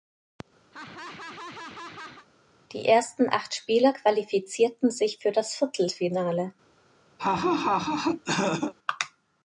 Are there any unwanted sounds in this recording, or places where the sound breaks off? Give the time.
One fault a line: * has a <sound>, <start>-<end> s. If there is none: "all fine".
* has a laugh, 0.7-2.3 s
* has a laugh, 7.2-8.7 s